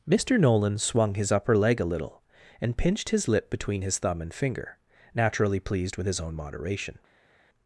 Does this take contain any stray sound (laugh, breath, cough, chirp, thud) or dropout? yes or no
no